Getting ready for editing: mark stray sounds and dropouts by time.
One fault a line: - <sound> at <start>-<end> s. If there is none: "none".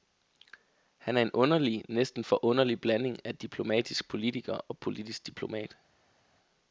none